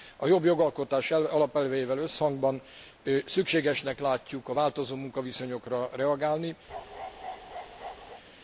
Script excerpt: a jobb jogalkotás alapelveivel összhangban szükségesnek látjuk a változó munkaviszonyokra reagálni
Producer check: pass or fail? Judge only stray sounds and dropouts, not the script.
fail